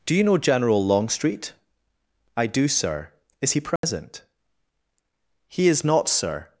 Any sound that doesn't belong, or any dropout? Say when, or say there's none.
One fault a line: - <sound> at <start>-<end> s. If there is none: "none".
- dropout at 3.8-3.8 s